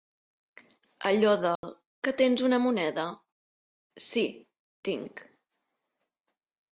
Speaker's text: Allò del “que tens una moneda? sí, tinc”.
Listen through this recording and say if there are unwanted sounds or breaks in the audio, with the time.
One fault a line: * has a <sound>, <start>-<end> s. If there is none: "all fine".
* has a dropout, 1.6-1.6 s